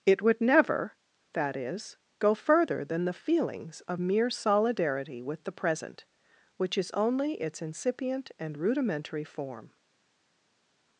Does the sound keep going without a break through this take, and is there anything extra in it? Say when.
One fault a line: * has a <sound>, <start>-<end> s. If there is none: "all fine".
all fine